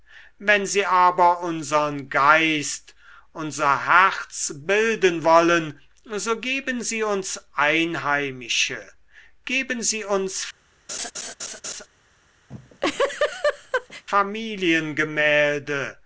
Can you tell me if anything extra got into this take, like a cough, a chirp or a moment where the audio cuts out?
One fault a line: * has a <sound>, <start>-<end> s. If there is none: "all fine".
* has a laugh, 10.9-11.9 s
* has a laugh, 12.5-14.0 s